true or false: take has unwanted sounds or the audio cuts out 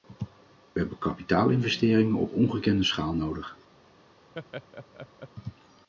true